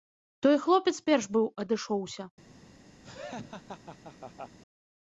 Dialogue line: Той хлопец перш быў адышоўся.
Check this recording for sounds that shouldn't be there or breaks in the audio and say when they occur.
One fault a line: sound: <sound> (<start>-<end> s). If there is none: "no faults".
sound: laugh (3.0-4.6 s)